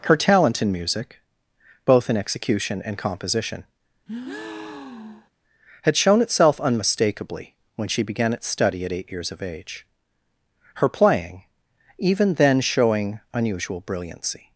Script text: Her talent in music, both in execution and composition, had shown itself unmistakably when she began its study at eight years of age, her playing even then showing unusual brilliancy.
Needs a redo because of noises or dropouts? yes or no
yes